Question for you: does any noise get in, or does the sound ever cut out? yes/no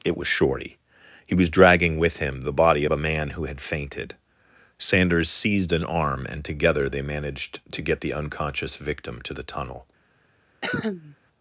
yes